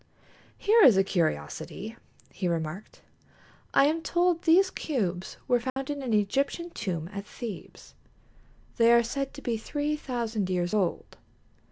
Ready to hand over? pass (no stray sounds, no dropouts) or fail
fail